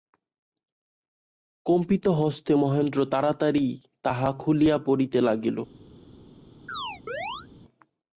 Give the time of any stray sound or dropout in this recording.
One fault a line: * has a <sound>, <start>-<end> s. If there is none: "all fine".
* has a chirp, 6.7-7.5 s